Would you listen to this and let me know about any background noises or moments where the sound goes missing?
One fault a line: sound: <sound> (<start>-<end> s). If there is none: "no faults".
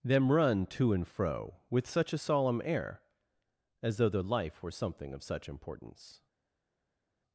no faults